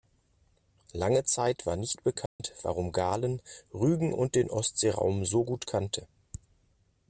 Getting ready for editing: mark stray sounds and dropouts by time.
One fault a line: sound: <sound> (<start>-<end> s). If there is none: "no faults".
sound: dropout (2.3-2.4 s)